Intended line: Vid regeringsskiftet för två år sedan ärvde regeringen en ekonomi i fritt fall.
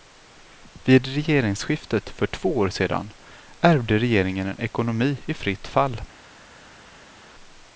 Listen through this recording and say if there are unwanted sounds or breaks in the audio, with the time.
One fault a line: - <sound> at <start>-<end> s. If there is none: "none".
none